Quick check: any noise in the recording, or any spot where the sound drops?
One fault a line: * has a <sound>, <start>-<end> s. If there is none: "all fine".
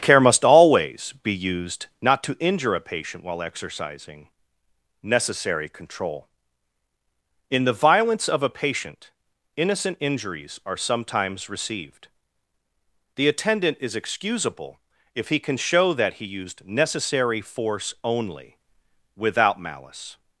all fine